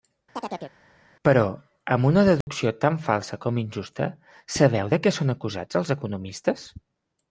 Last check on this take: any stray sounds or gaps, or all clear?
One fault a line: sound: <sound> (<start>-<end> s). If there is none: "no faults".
sound: chirp (0.4-0.7 s)
sound: dropout (2.4-2.5 s)